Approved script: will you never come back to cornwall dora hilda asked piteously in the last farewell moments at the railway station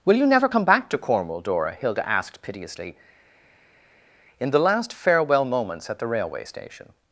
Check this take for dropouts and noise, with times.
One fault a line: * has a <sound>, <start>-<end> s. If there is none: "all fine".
all fine